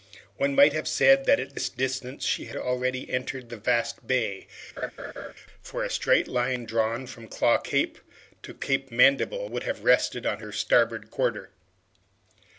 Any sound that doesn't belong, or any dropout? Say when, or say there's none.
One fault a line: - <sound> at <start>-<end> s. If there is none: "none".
- laugh at 4.8-5.3 s